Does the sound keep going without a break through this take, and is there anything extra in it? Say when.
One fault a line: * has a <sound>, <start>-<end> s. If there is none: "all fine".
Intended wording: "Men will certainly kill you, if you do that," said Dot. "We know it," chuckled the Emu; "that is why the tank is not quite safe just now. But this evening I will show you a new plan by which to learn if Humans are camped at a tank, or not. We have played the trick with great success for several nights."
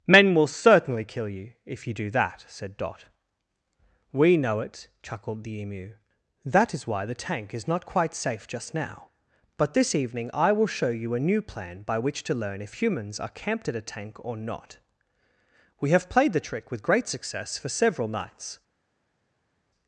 all fine